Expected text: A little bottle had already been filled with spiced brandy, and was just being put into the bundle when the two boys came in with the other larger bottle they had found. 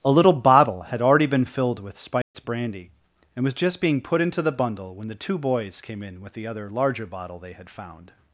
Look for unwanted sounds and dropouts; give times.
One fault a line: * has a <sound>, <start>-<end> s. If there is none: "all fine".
* has a dropout, 2.2-2.3 s